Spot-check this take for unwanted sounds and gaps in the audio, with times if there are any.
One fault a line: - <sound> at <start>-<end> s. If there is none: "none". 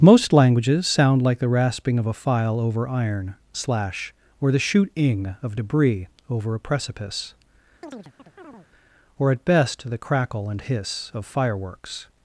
- chirp at 7.8-8.7 s